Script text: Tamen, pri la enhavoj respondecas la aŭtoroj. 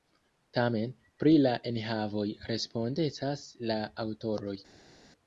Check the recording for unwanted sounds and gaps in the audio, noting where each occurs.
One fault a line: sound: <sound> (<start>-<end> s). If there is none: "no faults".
no faults